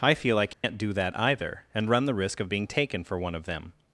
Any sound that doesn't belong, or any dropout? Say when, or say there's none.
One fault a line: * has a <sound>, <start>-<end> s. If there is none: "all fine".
* has a dropout, 0.5-0.6 s